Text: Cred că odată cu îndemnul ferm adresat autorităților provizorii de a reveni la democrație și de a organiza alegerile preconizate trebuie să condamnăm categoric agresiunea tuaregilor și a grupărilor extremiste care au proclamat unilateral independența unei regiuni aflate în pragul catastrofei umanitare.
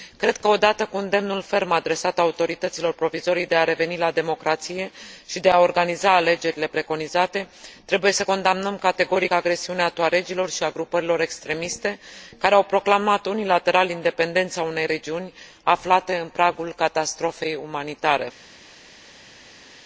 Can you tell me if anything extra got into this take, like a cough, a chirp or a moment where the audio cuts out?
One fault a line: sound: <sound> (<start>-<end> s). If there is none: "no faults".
no faults